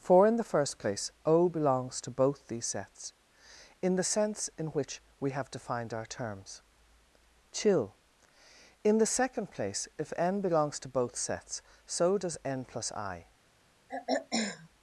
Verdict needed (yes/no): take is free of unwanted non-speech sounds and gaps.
no